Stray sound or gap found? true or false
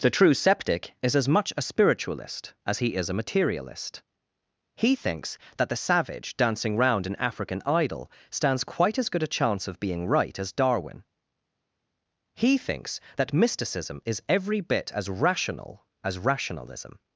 false